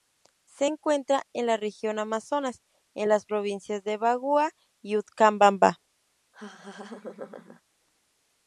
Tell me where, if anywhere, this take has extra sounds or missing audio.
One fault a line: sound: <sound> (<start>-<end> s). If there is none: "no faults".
sound: laugh (6.3-7.6 s)